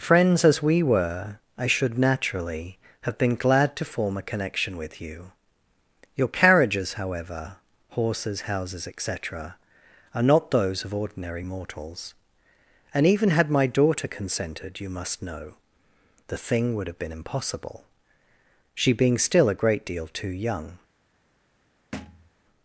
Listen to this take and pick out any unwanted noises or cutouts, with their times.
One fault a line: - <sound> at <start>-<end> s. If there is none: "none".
- thud at 21.9-22.3 s